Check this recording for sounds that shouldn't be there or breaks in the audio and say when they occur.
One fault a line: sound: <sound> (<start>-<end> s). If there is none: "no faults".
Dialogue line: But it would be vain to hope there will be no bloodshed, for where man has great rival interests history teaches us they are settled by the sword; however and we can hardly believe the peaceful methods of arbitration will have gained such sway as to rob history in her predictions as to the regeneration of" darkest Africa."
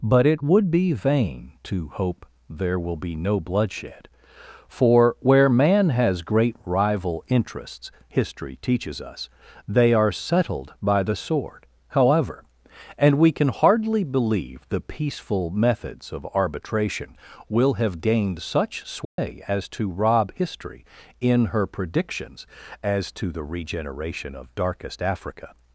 sound: dropout (19.0-19.2 s)